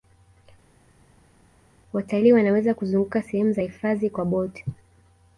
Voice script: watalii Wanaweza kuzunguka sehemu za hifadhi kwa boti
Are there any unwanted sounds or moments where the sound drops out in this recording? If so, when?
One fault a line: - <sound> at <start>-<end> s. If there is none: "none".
none